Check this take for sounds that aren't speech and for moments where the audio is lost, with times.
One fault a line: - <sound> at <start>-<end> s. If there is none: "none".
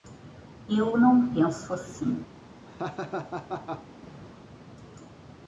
- laugh at 2.6-3.9 s